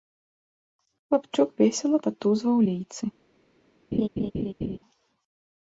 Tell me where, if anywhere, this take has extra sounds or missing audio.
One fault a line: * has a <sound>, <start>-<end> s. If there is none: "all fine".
* has a laugh, 3.9-4.8 s